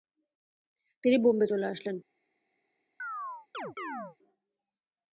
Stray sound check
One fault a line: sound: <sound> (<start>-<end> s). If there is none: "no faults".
sound: chirp (3.0-4.2 s)